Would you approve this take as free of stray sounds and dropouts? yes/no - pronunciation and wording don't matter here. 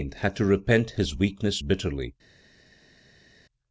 yes